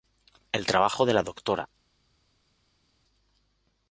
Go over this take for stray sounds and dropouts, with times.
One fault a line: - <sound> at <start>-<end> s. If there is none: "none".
none